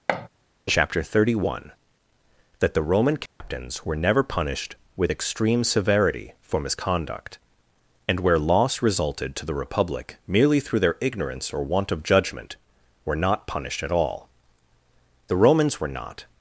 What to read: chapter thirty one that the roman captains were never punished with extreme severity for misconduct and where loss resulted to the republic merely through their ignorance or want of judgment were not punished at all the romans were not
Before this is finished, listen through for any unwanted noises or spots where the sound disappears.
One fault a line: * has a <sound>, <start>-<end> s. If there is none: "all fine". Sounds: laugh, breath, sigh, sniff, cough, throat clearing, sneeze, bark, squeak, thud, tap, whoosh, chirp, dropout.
* has a thud, 0.1-0.3 s
* has a dropout, 3.3-3.4 s